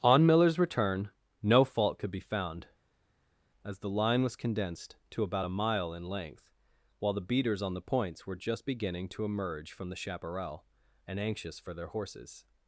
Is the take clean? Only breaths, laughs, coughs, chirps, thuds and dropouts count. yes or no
yes